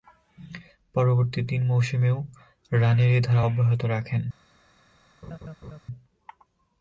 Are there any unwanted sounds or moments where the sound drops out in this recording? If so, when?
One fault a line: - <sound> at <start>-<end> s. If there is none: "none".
- laugh at 5.2-5.8 s